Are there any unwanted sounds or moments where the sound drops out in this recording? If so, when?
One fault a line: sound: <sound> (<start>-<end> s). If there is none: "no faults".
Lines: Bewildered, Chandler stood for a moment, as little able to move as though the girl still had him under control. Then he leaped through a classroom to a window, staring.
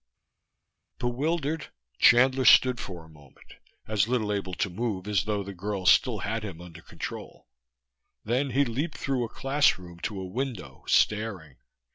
no faults